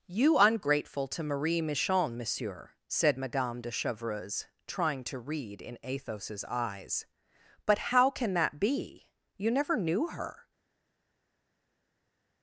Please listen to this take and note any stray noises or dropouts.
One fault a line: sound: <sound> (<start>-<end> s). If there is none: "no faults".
no faults